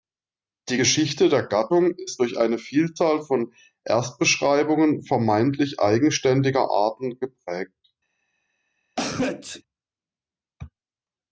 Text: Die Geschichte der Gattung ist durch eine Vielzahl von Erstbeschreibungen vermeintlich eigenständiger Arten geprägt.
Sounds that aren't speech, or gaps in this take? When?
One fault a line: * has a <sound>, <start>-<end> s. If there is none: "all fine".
* has a sneeze, 9.0-9.6 s